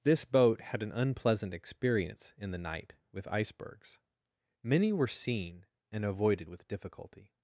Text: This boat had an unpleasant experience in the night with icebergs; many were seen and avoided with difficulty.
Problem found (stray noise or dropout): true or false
false